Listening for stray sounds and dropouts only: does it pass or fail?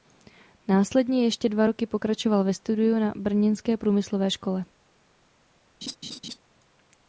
fail